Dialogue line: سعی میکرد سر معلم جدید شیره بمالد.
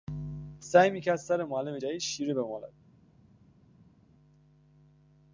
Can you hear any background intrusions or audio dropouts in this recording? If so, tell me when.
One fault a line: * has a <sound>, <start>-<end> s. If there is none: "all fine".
all fine